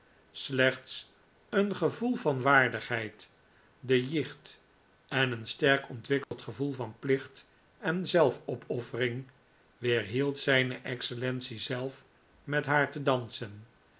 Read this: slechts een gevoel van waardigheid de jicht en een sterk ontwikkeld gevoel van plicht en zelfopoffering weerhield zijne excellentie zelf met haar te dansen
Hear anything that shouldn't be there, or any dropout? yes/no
yes